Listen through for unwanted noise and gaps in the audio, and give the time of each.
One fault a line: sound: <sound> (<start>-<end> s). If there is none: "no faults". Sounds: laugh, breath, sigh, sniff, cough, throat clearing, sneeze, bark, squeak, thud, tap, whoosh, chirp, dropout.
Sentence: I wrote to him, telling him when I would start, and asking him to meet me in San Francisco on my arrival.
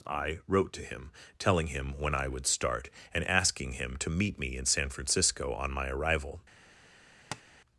sound: tap (7.3-7.4 s)